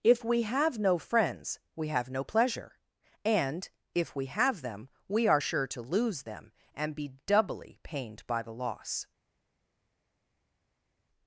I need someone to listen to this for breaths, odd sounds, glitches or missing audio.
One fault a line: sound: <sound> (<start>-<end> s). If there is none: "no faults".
no faults